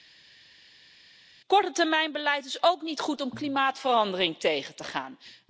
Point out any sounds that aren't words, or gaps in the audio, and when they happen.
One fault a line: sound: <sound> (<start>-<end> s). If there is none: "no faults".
no faults